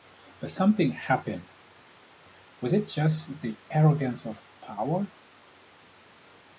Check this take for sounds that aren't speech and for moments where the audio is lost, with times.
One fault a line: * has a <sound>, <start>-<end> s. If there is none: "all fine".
all fine